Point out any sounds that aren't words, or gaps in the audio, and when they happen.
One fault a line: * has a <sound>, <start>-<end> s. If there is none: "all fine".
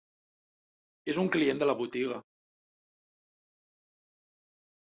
all fine